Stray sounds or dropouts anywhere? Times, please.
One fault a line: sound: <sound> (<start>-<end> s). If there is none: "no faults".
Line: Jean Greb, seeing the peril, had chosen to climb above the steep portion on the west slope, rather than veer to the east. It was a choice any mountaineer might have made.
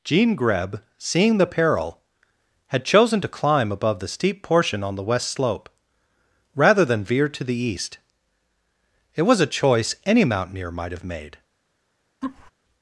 sound: laugh (12.2-12.5 s)